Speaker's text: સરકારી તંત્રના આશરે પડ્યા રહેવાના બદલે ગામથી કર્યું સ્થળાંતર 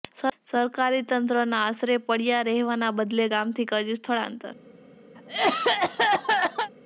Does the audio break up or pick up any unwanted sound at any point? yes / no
yes